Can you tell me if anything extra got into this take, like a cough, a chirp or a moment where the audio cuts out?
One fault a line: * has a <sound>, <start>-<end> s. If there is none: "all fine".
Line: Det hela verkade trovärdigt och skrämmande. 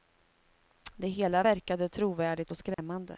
* has a dropout, 2.7-2.8 s